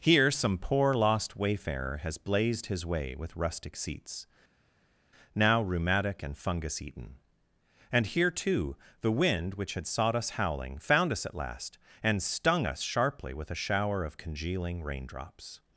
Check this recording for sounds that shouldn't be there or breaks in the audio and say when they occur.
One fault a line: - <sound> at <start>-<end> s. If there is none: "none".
none